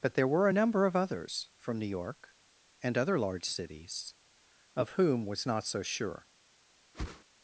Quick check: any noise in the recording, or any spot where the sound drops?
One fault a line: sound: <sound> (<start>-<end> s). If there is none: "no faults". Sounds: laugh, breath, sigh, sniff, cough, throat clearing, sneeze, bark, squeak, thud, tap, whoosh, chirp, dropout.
sound: whoosh (6.9-7.2 s)